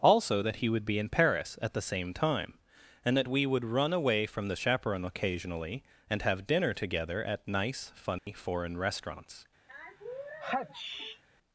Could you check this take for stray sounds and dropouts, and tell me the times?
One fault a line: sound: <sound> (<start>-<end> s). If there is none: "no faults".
sound: dropout (8.2-8.3 s)
sound: sneeze (9.7-11.2 s)